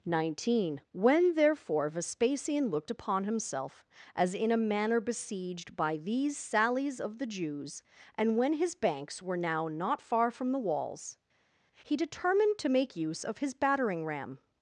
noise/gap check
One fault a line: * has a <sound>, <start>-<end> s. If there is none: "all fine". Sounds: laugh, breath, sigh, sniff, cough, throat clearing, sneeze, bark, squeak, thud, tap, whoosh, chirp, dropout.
all fine